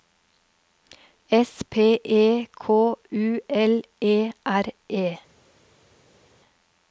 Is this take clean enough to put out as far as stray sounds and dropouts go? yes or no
yes